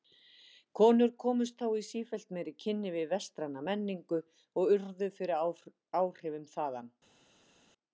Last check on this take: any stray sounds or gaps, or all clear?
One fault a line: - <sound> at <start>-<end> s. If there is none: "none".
none